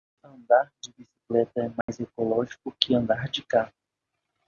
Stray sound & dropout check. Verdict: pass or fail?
fail